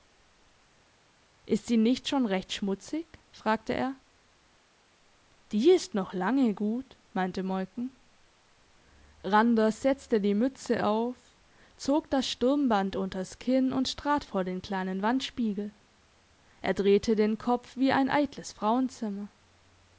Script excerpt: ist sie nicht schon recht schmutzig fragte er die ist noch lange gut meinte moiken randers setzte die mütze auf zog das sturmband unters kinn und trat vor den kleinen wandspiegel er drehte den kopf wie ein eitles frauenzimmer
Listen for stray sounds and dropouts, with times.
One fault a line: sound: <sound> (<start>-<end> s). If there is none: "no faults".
no faults